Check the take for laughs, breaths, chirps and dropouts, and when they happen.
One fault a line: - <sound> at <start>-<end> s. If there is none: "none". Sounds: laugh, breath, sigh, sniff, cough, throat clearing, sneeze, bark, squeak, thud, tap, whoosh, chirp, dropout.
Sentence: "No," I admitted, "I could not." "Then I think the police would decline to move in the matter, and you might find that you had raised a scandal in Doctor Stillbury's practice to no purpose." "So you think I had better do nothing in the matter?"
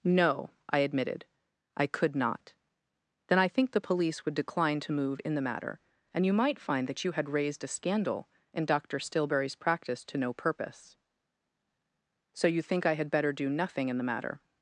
none